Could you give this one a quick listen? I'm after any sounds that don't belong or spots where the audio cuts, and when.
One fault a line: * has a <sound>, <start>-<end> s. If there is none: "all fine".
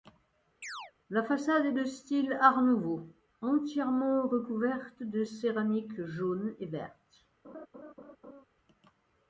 * has a chirp, 0.6-0.9 s
* has a laugh, 7.4-8.4 s